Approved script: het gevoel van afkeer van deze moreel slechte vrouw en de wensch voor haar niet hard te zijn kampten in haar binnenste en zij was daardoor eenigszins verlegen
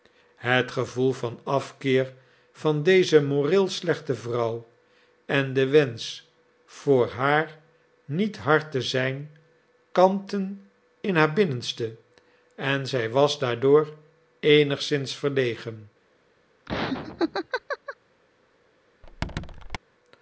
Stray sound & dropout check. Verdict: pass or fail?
fail